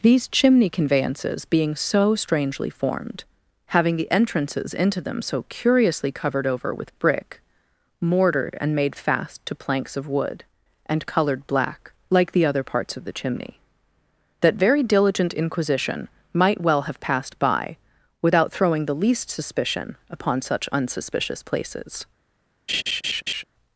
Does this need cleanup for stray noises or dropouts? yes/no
yes